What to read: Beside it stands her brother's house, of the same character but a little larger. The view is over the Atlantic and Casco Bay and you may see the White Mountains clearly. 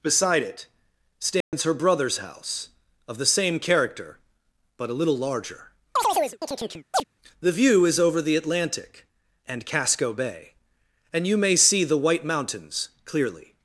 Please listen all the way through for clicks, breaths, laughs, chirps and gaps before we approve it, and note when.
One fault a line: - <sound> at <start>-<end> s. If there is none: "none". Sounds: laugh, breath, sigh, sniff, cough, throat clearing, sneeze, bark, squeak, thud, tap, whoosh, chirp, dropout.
- dropout at 1.4-1.5 s
- chirp at 6.0-7.0 s